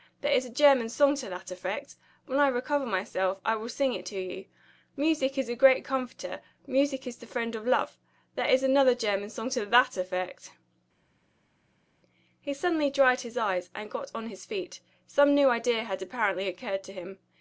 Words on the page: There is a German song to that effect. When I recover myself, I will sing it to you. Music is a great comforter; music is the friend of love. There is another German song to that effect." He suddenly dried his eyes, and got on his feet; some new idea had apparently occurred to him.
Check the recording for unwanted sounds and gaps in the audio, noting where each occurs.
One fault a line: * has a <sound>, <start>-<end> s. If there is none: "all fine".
all fine